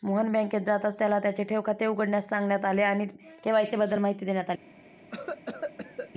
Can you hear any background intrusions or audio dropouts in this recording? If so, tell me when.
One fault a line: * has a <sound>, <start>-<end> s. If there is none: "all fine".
* has a cough, 5.1-6.1 s